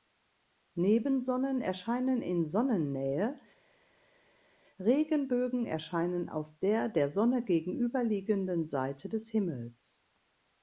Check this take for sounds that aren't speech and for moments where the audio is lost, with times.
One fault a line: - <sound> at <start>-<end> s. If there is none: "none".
none